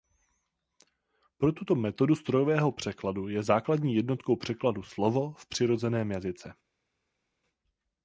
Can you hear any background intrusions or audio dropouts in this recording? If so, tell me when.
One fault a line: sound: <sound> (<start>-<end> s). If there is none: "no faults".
no faults